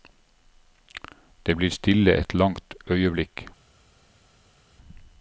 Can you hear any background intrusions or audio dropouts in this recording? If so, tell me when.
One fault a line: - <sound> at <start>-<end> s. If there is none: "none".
none